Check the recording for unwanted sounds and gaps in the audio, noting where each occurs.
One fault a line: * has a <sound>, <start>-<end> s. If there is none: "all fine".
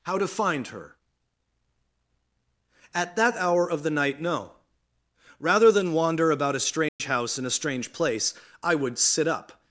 * has a dropout, 6.9-7.0 s